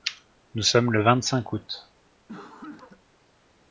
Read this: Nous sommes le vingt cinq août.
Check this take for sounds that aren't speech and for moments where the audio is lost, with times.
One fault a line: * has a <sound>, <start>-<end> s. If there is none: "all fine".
* has a cough, 2.3-3.0 s